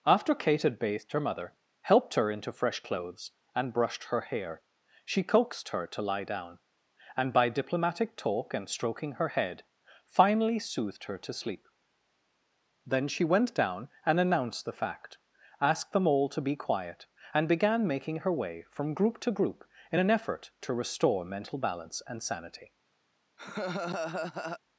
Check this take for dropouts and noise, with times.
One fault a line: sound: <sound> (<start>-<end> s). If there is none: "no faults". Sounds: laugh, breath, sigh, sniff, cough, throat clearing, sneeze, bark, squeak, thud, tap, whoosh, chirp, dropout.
sound: laugh (23.4-24.6 s)